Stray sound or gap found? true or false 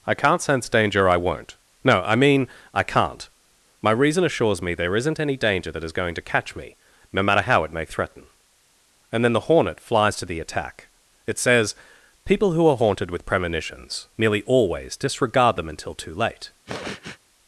true